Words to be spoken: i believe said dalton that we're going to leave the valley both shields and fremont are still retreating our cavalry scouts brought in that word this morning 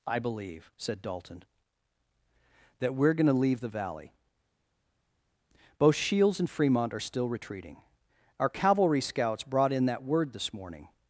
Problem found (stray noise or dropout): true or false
false